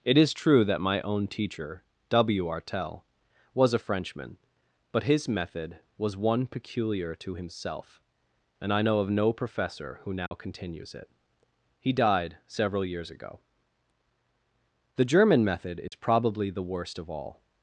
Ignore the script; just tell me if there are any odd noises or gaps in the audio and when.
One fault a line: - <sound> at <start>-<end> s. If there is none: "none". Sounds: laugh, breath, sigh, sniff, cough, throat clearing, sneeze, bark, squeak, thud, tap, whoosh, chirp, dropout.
- dropout at 10.3-10.3 s
- dropout at 15.9-15.9 s